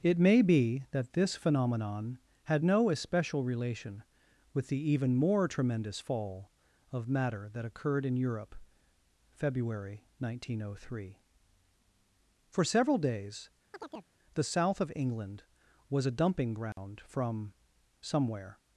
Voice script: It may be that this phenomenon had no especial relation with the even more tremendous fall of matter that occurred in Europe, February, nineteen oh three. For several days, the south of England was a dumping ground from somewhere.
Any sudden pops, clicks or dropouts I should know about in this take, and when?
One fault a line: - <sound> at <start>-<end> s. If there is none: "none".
- chirp at 13.7-14.1 s
- dropout at 16.7-16.8 s